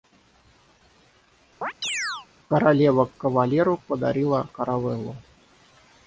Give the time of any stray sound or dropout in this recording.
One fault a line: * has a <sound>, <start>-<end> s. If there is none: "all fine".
* has a chirp, 1.6-2.3 s